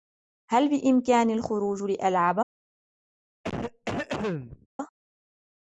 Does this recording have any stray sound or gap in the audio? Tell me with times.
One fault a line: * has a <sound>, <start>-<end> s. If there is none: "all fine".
* has a cough, 3.4-4.7 s